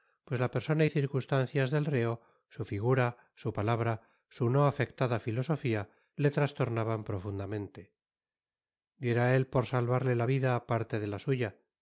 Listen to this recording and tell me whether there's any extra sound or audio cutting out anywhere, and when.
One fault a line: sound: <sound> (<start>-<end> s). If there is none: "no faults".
no faults